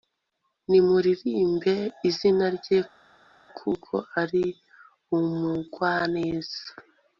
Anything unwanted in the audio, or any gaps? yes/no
no